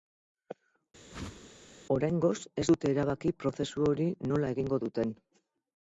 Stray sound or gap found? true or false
true